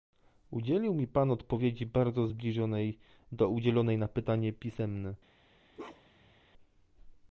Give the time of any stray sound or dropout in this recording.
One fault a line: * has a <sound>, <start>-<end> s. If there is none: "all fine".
* has a bark, 5.7-6.3 s